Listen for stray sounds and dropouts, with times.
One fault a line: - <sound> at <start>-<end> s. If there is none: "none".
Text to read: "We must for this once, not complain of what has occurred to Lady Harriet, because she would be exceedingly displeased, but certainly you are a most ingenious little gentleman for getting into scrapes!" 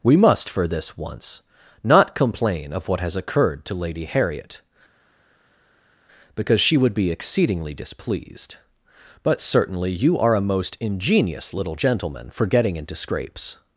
none